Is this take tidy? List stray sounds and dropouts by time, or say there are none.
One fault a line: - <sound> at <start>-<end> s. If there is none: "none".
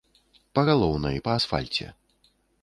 none